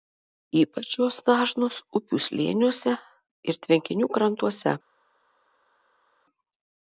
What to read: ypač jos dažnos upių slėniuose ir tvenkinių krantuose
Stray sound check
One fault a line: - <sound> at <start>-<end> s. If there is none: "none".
none